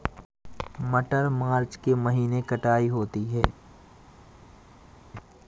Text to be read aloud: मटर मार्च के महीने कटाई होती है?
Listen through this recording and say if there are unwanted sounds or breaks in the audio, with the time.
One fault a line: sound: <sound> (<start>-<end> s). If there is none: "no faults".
no faults